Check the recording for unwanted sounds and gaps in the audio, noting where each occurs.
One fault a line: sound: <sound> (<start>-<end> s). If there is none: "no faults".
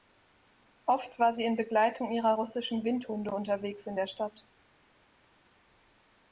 no faults